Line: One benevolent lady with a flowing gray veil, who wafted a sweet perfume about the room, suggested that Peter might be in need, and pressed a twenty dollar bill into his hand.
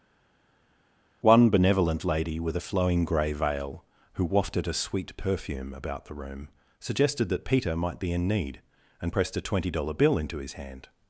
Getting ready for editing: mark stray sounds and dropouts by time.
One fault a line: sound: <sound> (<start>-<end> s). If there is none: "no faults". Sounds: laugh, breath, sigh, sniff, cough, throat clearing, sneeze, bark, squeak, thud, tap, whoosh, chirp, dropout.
no faults